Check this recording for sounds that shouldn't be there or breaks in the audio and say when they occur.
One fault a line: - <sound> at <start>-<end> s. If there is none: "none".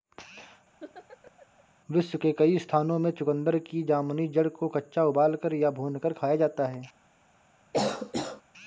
- laugh at 0.8-1.6 s
- cough at 7.7-8.4 s